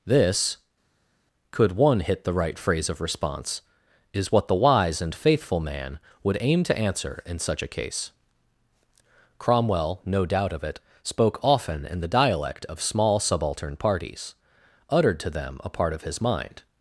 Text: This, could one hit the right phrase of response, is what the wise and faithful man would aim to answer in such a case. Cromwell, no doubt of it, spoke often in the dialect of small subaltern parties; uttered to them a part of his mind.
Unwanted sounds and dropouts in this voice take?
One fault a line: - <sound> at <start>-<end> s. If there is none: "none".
none